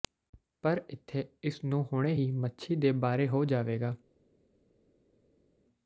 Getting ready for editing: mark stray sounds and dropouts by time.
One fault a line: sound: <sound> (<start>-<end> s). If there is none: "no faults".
no faults